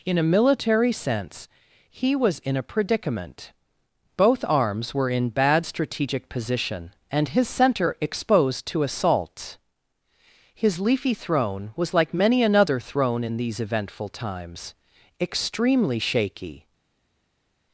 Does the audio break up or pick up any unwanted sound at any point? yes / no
no